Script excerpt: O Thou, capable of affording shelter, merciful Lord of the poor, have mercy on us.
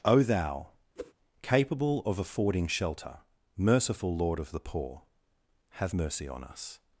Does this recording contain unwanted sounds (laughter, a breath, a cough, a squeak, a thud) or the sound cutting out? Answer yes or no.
yes